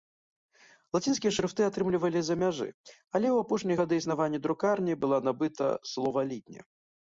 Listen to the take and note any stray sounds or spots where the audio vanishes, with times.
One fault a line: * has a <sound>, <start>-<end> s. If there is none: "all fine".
all fine